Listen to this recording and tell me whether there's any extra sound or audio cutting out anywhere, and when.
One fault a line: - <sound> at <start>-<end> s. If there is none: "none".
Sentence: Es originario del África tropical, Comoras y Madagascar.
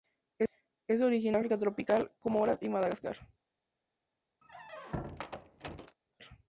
- squeak at 4.4-6.0 s